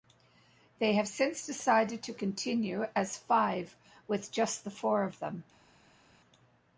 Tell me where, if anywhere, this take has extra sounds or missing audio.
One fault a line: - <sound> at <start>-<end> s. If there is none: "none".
none